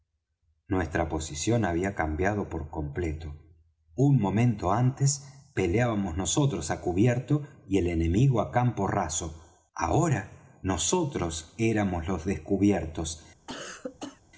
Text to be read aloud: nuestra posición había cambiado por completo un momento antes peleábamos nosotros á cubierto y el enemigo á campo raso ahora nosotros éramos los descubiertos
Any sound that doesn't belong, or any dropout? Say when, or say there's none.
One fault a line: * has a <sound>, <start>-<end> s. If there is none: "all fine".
* has a cough, 13.5-14.2 s